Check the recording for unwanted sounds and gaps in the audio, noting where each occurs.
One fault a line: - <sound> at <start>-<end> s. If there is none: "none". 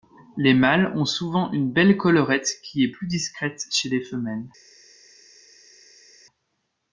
none